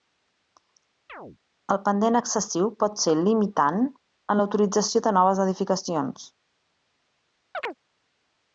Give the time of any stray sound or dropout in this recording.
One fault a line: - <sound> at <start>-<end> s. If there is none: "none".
- chirp at 1.1-1.4 s
- chirp at 7.5-7.8 s